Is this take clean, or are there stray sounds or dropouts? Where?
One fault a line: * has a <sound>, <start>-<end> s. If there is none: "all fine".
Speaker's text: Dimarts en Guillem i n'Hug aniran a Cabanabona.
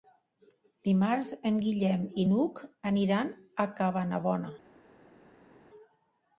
all fine